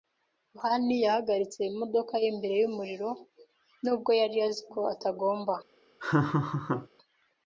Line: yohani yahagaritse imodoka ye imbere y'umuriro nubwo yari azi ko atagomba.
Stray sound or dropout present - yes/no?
yes